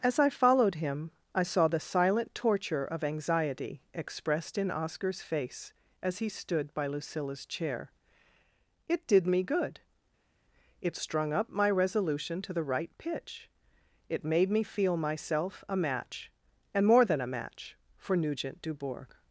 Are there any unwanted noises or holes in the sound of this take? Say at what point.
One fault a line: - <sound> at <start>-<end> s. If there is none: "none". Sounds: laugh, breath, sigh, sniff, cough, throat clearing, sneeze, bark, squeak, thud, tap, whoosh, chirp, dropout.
none